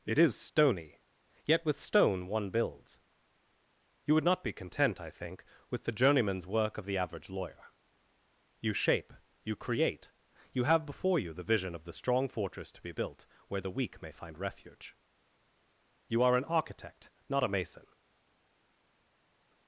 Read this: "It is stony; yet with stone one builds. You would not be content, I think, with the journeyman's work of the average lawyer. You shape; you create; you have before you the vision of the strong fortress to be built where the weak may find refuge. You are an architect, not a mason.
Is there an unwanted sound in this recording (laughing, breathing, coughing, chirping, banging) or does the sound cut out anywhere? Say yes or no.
no